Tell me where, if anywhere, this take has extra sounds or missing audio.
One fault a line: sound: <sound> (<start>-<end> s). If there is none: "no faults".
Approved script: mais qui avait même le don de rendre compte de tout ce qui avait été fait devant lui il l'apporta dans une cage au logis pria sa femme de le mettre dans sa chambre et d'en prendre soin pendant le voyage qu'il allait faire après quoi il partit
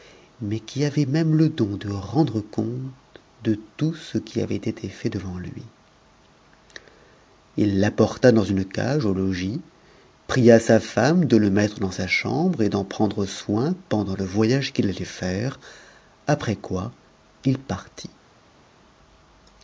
no faults